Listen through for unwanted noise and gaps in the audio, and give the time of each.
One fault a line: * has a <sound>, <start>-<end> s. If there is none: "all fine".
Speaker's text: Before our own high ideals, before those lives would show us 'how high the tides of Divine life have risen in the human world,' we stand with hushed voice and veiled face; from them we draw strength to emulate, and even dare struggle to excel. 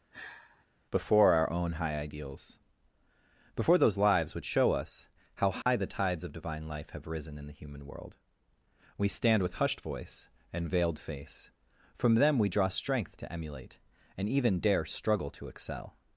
* has a sigh, 0.1-0.7 s
* has a dropout, 5.6-5.7 s